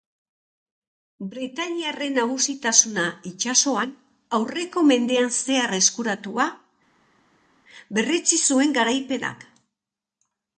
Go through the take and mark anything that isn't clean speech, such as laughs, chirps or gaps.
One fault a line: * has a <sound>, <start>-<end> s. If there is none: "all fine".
all fine